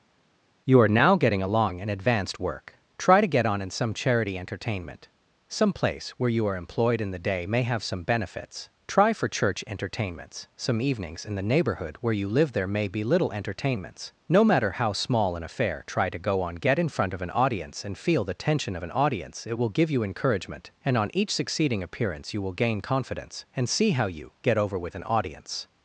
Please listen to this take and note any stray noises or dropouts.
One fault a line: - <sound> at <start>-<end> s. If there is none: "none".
none